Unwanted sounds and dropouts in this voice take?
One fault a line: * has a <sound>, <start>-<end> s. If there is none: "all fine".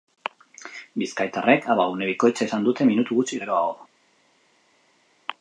all fine